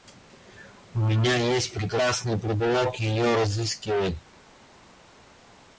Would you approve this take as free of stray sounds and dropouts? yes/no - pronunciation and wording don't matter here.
yes